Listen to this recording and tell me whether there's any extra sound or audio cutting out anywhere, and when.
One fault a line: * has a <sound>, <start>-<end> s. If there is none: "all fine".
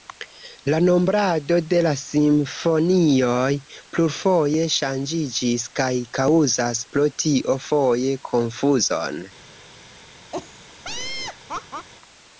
* has a laugh, 10.3-11.9 s